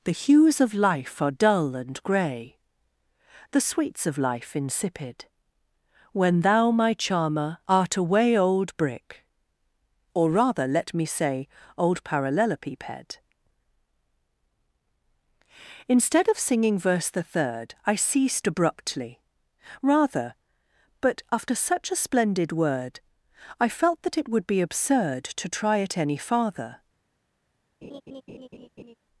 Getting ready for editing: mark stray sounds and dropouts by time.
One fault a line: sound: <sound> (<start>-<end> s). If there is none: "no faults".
sound: laugh (27.8-29.0 s)